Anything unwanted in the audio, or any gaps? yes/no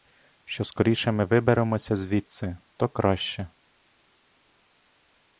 no